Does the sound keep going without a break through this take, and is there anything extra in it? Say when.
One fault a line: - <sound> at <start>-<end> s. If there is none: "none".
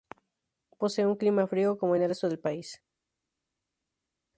none